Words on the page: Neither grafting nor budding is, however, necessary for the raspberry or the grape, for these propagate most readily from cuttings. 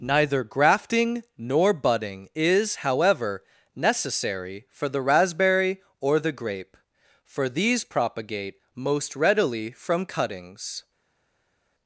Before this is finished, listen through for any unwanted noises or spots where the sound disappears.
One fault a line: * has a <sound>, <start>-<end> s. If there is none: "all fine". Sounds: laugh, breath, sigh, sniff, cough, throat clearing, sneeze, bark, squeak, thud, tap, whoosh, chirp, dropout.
all fine